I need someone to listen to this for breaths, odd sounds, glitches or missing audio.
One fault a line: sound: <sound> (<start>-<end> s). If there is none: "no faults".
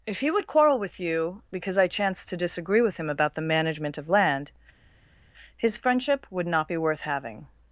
no faults